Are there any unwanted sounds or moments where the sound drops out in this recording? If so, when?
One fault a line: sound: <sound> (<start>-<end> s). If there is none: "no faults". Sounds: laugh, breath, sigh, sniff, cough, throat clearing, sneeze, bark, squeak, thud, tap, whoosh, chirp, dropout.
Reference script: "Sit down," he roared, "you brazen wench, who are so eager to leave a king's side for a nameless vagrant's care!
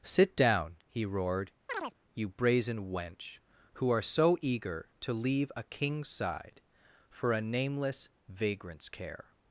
sound: chirp (1.7-1.9 s)